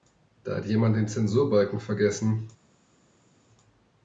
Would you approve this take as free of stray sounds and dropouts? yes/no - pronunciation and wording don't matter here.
yes